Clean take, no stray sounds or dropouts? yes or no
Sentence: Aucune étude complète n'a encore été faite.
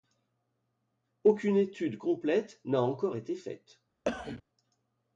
no